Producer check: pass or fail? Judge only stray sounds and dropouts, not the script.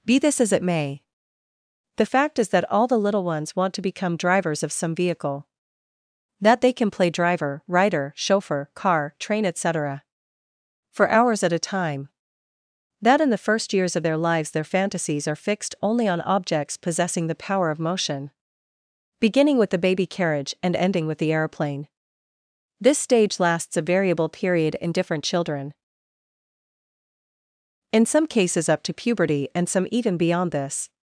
pass